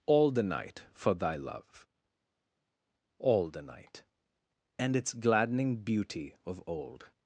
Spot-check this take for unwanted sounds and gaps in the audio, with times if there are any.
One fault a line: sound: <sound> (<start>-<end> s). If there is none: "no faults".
no faults